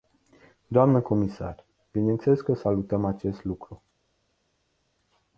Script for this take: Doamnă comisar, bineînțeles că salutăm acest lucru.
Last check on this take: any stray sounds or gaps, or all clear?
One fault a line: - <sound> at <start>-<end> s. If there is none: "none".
none